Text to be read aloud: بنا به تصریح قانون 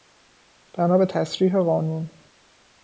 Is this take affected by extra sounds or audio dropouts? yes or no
no